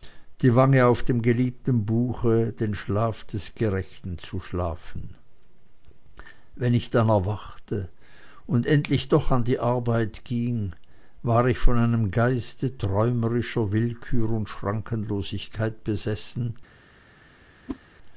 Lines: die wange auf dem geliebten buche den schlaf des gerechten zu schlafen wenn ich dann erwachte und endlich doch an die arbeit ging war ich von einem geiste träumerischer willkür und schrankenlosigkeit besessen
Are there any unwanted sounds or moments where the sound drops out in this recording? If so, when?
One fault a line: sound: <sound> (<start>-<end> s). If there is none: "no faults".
sound: whoosh (17.7-17.8 s)